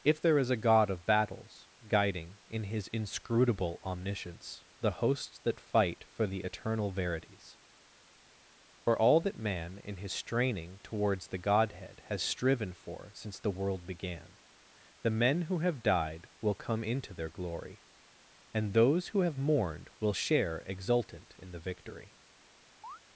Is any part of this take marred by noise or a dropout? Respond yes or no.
yes